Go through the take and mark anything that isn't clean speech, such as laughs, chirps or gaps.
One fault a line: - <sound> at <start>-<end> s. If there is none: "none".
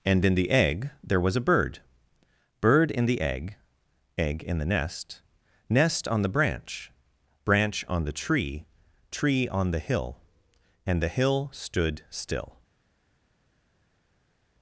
none